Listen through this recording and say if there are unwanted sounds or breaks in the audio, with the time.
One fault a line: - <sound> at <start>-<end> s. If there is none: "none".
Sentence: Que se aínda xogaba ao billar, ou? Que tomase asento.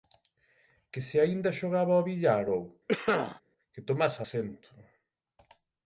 - cough at 2.9-3.4 s